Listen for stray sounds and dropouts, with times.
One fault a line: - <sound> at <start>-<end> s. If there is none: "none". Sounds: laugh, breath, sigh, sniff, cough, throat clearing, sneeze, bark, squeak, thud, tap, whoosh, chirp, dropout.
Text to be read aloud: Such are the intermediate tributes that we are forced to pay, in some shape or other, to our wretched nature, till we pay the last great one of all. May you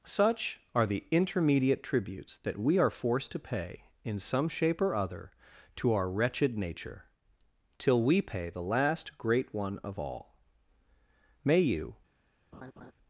- laugh at 12.5-12.9 s